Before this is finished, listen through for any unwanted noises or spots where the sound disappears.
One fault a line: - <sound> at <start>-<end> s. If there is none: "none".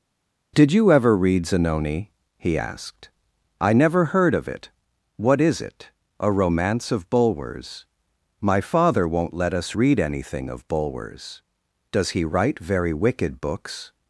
none